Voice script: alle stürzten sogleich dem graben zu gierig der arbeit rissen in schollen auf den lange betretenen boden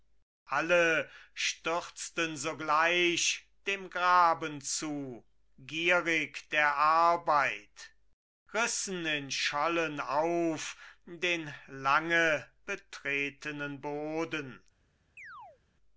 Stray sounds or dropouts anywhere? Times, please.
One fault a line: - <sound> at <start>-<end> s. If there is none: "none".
- chirp at 15.2-15.6 s